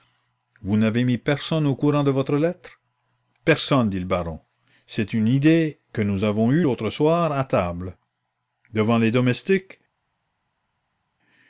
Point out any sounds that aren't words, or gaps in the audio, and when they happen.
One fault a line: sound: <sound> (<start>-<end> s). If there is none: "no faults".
no faults